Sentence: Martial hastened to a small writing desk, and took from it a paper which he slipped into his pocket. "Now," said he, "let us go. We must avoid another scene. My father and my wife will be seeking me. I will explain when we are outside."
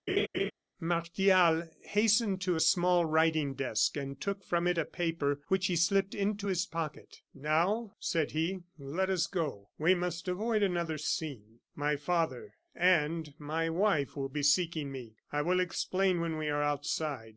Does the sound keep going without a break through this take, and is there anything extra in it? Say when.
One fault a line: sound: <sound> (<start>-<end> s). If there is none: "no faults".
sound: laugh (0.1-0.5 s)